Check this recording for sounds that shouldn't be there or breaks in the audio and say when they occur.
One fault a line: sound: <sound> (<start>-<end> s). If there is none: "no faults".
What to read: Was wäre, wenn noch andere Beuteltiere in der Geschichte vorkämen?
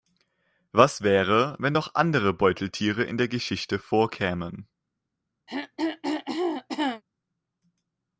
sound: throat clearing (5.5-7.0 s)